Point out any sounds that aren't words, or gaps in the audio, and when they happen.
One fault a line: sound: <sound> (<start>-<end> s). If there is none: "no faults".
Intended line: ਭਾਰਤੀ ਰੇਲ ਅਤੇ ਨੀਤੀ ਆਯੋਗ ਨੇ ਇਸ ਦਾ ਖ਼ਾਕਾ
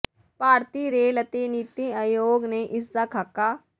no faults